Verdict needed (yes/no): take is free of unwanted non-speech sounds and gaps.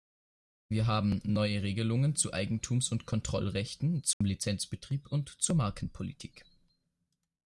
no